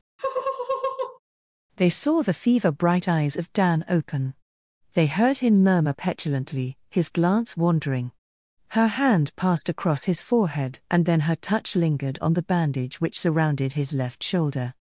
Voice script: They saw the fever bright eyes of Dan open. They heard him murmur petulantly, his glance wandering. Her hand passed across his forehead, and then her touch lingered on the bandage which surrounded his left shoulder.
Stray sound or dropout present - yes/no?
yes